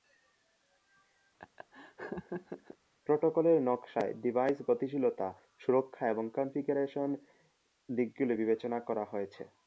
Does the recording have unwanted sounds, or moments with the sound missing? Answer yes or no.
yes